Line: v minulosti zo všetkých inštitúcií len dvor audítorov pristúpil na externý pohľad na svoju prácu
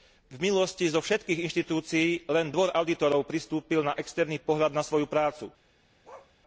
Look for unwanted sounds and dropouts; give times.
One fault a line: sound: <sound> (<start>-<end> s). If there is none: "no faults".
sound: bark (6.0-6.3 s)